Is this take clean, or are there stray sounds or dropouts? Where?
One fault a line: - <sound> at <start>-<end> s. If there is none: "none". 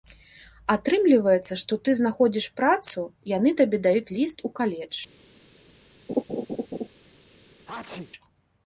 - laugh at 6.1-6.9 s
- sneeze at 7.7-8.1 s